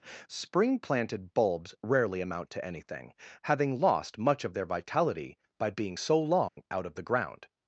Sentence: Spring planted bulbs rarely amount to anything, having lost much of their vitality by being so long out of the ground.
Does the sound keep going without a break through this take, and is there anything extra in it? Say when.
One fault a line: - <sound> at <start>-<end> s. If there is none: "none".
- dropout at 6.5-6.6 s